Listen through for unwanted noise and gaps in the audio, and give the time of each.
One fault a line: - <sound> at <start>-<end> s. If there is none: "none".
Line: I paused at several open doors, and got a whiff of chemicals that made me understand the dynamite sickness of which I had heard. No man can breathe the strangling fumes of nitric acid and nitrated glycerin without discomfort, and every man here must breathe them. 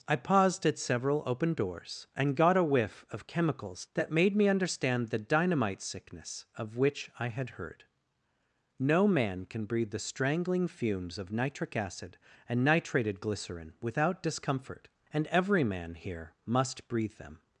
none